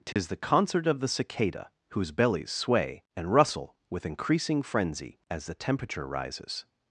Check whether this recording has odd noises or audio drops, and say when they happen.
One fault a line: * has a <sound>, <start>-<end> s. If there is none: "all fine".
* has a dropout, 0.1-0.2 s